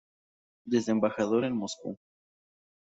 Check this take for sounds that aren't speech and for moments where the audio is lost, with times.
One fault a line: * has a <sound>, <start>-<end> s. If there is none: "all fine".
all fine